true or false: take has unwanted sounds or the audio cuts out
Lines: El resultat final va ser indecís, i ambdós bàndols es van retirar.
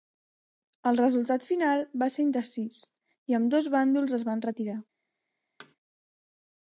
true